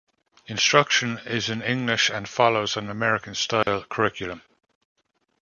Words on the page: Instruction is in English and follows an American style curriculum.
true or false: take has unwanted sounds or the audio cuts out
true